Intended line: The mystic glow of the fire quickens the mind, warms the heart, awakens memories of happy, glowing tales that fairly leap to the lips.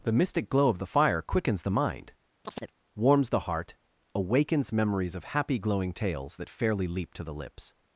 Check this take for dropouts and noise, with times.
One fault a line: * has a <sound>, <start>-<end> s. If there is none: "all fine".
* has a chirp, 2.5-2.7 s